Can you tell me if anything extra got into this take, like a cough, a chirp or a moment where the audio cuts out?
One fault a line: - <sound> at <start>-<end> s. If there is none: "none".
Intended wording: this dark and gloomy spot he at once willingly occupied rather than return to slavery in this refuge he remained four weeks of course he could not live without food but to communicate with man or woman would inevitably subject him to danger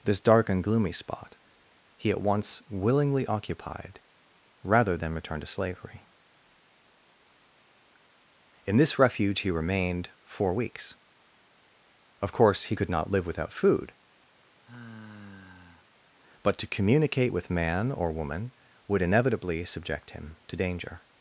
- sigh at 14.5-15.9 s